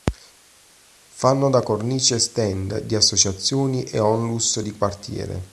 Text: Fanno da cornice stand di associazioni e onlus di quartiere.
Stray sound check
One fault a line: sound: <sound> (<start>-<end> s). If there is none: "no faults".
no faults